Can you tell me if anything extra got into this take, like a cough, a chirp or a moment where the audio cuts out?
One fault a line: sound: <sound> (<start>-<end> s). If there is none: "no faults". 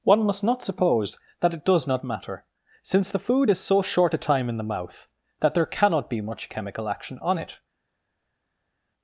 no faults